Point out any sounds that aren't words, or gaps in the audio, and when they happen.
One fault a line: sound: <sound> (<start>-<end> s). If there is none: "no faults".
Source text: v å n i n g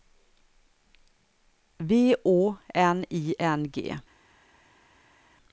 no faults